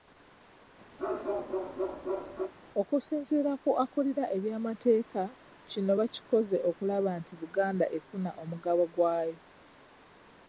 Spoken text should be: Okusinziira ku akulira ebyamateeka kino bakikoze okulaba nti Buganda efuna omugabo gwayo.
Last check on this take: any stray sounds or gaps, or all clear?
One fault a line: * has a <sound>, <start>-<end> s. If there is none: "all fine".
* has a bark, 1.0-2.5 s